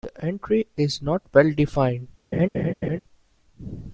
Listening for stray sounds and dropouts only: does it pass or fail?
fail